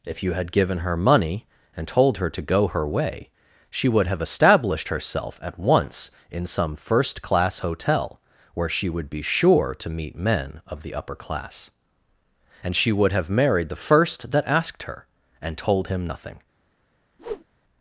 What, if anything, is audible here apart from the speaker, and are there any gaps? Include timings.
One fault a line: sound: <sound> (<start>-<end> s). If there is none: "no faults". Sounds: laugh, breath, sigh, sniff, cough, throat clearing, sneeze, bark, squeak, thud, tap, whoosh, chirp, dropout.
sound: whoosh (17.2-17.5 s)